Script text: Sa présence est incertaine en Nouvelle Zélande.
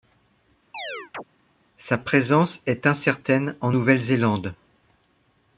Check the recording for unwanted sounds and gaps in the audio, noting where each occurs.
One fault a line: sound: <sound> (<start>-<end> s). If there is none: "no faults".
sound: chirp (0.7-1.2 s)